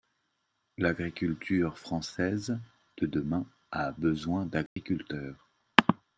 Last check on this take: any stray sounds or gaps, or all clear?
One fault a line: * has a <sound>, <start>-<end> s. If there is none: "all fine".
* has a dropout, 4.7-4.8 s